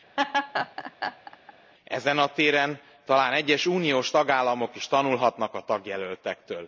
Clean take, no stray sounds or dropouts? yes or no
no